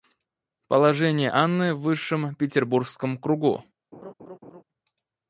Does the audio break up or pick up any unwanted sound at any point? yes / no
yes